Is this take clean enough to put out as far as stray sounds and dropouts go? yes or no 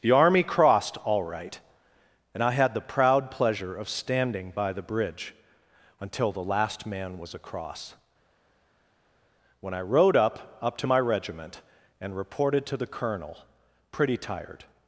yes